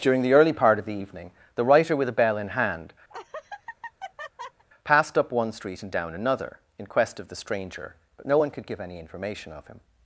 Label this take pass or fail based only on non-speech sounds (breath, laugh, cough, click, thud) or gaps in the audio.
fail